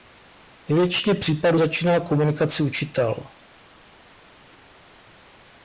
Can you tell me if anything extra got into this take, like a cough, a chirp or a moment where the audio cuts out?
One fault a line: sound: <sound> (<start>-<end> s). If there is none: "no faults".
no faults